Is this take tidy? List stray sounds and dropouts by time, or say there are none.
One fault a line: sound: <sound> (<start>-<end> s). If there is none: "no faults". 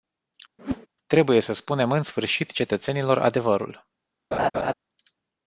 sound: whoosh (0.6-0.9 s)
sound: laugh (4.3-4.7 s)